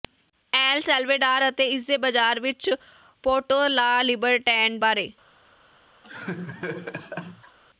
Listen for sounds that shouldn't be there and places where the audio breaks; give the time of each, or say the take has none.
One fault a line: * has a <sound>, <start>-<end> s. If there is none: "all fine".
* has a laugh, 6.0-7.6 s